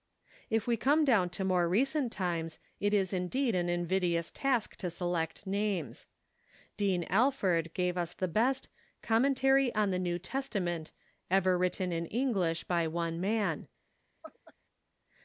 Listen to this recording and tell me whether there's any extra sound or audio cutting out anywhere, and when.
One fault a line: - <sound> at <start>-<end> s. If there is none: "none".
- laugh at 14.2-14.5 s